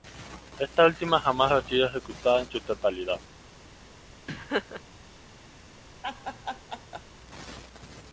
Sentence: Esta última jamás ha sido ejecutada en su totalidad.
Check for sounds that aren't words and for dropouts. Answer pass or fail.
fail